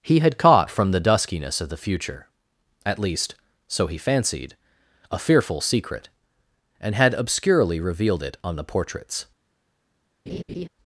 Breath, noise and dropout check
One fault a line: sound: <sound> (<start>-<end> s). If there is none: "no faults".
sound: laugh (10.3-10.7 s)